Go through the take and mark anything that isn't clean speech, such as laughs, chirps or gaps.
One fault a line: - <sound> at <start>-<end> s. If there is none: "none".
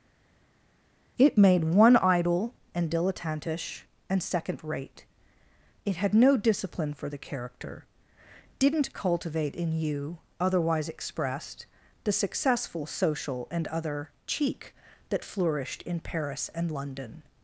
none